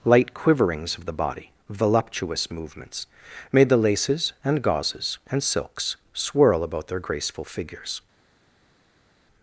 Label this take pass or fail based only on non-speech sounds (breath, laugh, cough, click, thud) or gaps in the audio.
pass